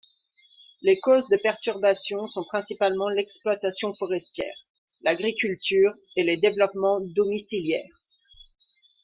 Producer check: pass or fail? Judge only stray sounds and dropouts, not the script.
pass